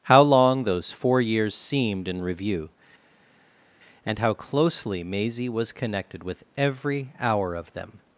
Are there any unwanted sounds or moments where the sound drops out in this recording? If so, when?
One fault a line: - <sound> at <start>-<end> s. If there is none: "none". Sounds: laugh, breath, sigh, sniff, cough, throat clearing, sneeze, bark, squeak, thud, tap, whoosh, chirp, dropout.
none